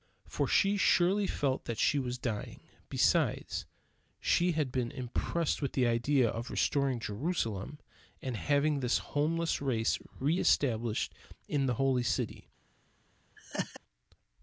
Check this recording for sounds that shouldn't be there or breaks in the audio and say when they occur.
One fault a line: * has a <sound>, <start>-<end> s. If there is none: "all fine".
* has a laugh, 13.4-13.8 s